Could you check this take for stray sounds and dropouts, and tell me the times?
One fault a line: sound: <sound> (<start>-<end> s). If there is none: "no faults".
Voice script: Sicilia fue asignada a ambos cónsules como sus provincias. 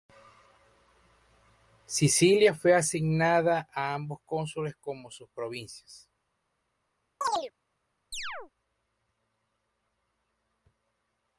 sound: chirp (7.2-7.5 s)
sound: chirp (8.1-8.5 s)